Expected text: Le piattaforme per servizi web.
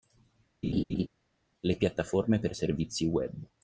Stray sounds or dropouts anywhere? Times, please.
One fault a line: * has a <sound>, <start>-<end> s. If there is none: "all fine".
* has a laugh, 0.6-1.1 s